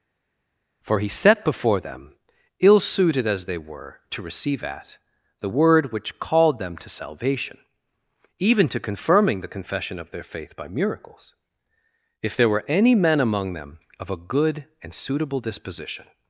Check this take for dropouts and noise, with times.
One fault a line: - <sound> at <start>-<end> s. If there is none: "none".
none